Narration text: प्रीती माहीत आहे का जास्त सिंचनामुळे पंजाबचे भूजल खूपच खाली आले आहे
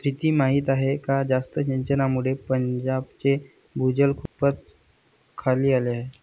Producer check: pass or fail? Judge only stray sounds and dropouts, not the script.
fail